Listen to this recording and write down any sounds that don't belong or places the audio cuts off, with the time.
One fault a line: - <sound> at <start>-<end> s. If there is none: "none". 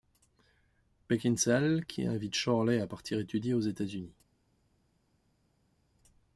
none